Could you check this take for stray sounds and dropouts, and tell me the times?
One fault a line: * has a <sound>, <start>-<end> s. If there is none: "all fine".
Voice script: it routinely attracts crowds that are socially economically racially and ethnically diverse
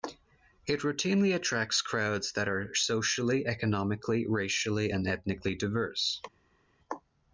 all fine